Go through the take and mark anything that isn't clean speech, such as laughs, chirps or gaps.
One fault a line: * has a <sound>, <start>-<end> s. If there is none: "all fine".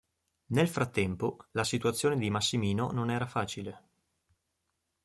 all fine